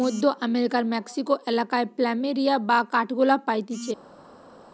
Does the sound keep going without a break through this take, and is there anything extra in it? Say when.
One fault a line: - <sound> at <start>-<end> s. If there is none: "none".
none